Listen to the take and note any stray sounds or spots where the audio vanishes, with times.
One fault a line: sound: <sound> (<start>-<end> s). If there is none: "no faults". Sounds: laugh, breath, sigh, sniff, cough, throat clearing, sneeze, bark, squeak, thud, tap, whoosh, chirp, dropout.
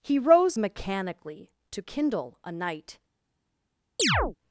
sound: chirp (4.0-4.4 s)